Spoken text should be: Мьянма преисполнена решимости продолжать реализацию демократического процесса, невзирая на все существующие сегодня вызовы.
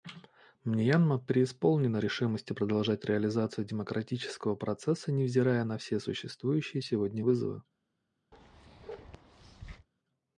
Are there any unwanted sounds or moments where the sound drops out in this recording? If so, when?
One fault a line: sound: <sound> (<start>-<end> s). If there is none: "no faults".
sound: bark (8.3-9.9 s)